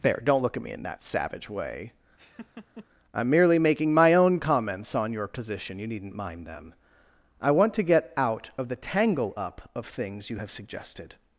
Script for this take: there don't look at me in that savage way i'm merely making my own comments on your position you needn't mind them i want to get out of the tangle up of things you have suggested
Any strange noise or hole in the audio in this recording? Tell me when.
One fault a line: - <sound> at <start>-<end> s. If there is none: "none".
- laugh at 2.2-2.9 s